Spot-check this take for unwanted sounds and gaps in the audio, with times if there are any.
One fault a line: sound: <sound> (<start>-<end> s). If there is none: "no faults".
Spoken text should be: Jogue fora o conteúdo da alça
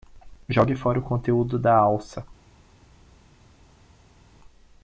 no faults